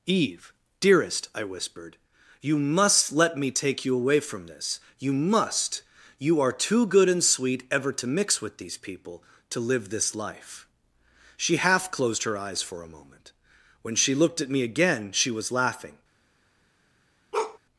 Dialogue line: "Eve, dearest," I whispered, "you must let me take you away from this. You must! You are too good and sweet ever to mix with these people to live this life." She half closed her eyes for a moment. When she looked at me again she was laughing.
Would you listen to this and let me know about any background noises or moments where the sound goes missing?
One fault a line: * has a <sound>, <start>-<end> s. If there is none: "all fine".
* has a bark, 17.3-17.6 s